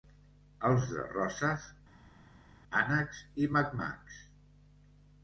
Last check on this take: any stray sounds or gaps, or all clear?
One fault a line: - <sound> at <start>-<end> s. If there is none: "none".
none